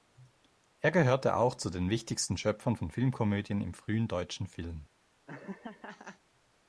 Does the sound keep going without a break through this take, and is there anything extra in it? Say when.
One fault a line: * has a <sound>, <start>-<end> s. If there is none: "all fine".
* has a laugh, 5.3-6.2 s